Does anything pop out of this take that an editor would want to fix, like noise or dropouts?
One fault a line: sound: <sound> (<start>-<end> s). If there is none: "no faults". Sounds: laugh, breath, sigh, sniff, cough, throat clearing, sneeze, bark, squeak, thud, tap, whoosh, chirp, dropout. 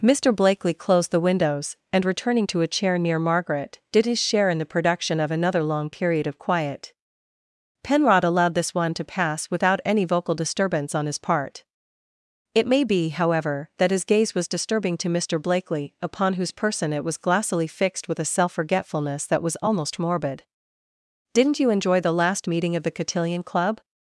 no faults